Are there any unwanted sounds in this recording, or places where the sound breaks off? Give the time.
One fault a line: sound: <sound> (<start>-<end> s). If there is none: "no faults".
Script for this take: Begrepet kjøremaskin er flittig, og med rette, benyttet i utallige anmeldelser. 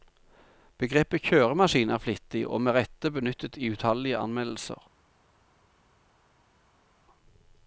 no faults